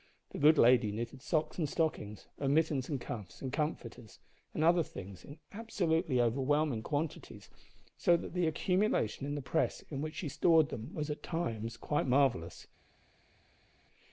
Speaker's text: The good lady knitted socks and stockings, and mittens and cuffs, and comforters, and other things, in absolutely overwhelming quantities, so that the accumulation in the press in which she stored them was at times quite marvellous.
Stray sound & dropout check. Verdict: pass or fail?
pass